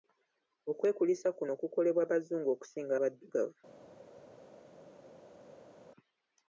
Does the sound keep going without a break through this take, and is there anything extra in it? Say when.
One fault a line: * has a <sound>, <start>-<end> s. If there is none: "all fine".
all fine